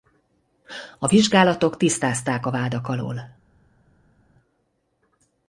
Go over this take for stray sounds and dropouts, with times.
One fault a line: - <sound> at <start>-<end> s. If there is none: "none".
none